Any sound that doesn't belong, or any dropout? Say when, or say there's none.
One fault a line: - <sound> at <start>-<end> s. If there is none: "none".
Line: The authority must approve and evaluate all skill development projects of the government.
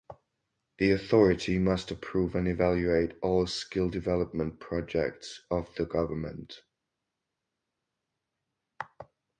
none